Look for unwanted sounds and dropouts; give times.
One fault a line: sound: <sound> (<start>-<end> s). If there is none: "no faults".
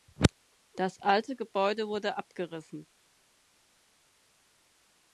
no faults